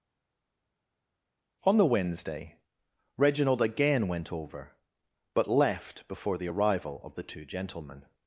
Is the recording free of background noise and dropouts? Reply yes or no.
yes